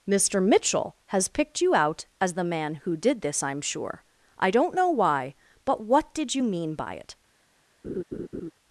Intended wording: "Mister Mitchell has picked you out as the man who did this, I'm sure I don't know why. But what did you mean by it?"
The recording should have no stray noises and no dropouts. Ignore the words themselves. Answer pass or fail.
fail